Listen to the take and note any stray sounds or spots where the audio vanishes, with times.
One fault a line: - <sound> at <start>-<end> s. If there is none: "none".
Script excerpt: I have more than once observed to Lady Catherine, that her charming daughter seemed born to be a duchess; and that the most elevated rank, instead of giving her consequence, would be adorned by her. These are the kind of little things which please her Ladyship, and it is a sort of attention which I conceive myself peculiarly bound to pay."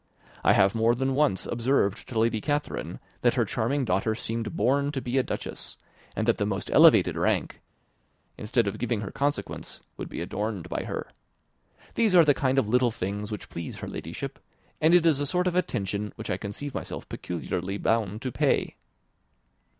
none